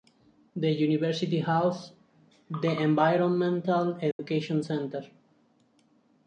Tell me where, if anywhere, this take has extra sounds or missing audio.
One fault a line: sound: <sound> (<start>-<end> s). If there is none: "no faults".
sound: dropout (4.1-4.2 s)